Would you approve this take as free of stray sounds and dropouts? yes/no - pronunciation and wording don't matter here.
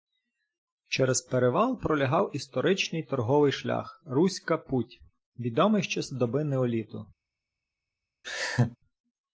no